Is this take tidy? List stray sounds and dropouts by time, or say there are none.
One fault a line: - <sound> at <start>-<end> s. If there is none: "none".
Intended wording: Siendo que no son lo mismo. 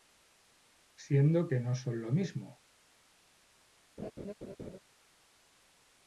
- laugh at 4.0-4.8 s